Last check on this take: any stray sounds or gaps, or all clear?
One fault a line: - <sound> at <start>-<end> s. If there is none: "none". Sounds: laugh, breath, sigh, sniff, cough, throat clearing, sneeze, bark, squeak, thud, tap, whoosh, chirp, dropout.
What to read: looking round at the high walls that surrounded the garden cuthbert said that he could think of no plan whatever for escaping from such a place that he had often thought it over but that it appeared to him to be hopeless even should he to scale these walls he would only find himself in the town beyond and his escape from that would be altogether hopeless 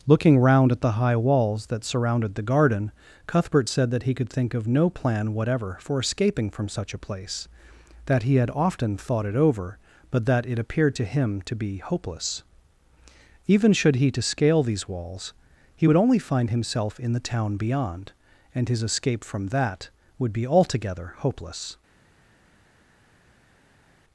none